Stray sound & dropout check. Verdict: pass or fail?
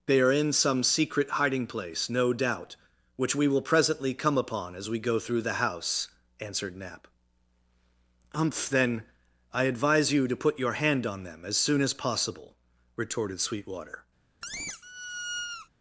fail